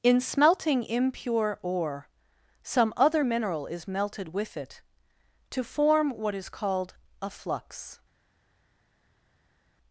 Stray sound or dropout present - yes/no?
no